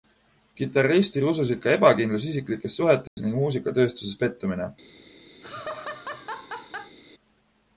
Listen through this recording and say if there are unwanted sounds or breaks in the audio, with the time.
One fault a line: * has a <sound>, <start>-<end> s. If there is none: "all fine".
* has a dropout, 3.1-3.2 s
* has a laugh, 5.4-7.0 s